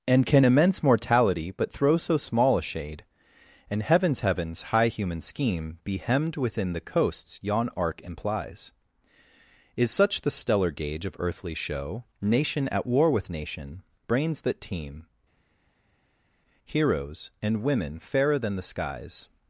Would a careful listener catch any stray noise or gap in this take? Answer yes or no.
no